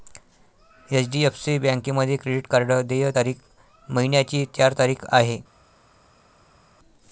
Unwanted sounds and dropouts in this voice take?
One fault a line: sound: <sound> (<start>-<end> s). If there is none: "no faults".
no faults